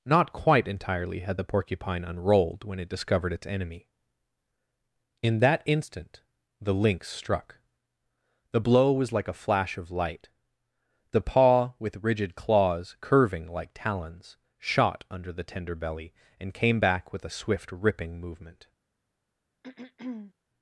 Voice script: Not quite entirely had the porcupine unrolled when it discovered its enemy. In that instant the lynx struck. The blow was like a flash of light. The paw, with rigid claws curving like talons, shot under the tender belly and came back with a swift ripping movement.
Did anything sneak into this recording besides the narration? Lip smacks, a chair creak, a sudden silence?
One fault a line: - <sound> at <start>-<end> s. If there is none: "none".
- throat clearing at 19.6-20.3 s